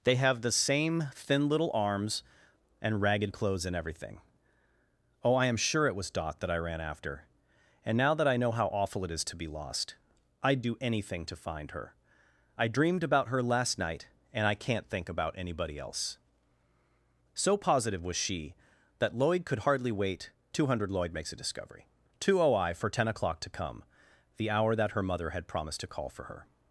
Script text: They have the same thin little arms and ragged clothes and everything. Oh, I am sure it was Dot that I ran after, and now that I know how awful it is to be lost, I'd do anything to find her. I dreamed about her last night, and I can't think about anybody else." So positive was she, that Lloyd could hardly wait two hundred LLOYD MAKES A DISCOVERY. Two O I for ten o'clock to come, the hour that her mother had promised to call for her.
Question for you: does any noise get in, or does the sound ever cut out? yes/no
no